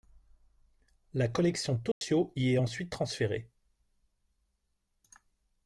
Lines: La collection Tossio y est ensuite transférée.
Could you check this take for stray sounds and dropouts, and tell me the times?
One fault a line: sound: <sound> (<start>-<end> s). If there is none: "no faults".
sound: dropout (1.9-2.0 s)